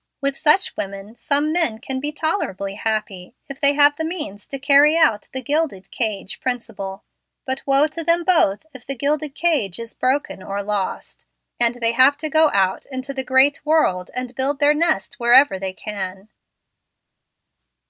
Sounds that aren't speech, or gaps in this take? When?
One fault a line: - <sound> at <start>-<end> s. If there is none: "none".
none